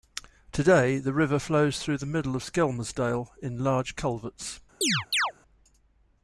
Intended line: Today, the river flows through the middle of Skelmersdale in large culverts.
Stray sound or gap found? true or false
true